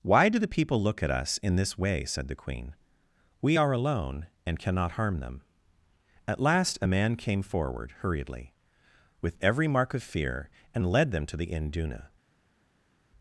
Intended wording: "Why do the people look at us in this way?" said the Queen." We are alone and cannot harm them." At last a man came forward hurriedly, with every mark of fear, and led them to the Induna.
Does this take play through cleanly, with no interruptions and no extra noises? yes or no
yes